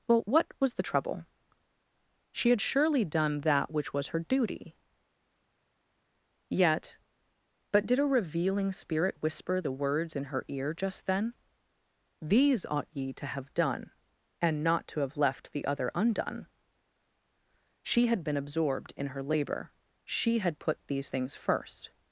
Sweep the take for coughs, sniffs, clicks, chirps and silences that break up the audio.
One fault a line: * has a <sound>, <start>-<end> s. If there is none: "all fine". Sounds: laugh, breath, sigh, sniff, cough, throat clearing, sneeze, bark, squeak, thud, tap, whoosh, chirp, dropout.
all fine